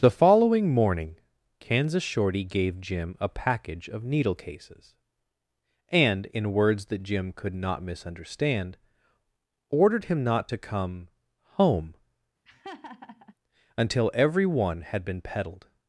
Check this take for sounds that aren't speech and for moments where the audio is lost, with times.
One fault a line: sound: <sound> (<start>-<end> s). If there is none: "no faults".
sound: laugh (12.5-13.3 s)